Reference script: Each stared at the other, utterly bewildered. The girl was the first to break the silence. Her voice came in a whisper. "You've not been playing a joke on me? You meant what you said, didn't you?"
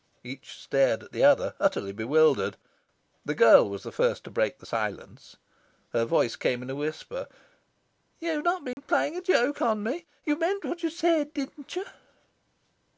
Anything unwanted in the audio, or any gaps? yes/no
yes